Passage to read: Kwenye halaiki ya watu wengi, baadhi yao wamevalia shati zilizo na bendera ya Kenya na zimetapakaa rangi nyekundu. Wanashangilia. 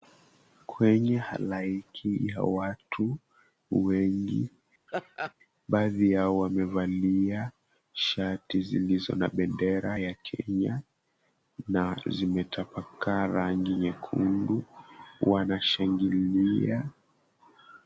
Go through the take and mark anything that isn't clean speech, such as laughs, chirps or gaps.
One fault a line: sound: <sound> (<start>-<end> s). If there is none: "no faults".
sound: laugh (4.9-5.3 s)